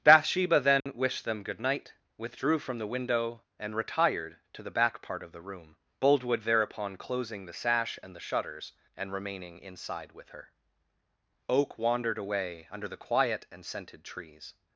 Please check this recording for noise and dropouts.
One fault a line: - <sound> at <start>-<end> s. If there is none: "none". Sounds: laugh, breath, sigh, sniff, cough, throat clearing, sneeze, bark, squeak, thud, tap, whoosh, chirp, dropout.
- dropout at 0.8-0.9 s